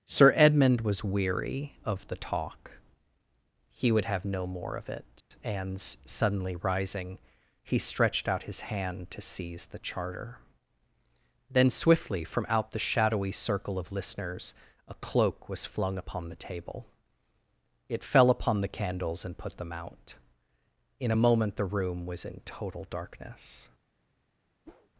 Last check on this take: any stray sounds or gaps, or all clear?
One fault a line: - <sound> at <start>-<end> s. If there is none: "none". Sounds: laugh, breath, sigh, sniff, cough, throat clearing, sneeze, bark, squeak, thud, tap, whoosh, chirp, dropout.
- dropout at 5.2-5.3 s
- whoosh at 24.6-24.9 s